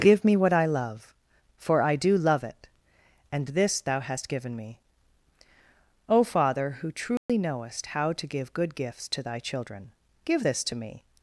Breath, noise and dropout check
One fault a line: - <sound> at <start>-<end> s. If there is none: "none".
- dropout at 7.2-7.3 s